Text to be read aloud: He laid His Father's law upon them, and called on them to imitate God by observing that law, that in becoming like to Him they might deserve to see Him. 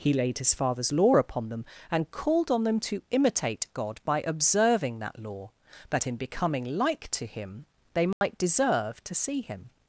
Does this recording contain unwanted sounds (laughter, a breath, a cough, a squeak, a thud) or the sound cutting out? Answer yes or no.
yes